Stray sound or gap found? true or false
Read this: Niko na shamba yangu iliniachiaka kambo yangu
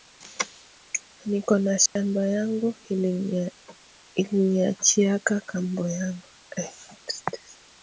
true